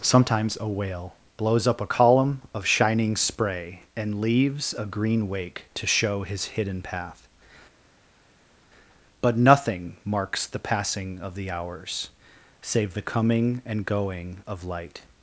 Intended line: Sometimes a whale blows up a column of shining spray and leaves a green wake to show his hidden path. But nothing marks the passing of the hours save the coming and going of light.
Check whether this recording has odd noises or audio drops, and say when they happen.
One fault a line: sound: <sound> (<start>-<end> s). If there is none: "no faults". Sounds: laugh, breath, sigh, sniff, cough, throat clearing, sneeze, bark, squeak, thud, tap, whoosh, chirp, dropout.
no faults